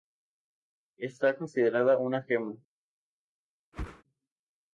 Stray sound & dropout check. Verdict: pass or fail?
fail